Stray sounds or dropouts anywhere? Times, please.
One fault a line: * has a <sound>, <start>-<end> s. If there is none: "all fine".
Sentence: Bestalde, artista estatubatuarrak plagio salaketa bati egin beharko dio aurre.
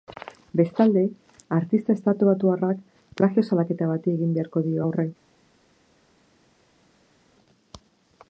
all fine